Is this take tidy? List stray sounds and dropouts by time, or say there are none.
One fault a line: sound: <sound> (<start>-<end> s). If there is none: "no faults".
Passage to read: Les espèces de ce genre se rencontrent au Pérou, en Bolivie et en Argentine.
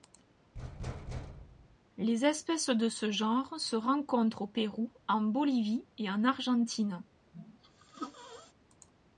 sound: thud (0.5-1.8 s)
sound: sneeze (7.3-8.5 s)